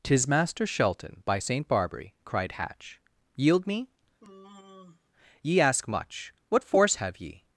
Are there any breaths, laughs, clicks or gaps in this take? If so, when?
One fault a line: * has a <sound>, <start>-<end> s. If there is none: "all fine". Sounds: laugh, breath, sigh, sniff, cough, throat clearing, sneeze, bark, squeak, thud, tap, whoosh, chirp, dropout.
* has a sigh, 4.2-5.1 s